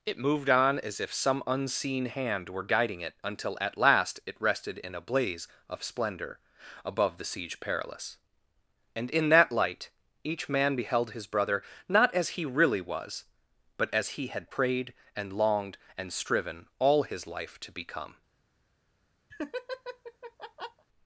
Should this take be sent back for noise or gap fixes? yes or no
yes